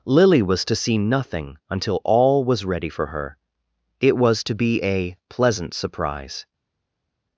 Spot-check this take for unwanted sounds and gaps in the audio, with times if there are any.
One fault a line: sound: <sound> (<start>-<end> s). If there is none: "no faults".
no faults